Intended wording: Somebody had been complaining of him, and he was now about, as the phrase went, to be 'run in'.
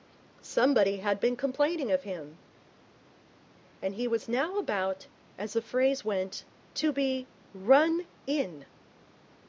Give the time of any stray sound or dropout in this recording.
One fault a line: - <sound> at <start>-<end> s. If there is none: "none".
none